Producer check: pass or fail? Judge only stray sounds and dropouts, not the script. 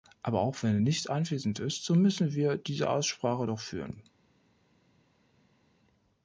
pass